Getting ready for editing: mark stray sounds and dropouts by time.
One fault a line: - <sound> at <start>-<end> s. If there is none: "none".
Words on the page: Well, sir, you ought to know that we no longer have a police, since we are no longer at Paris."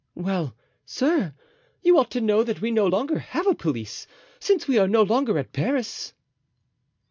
none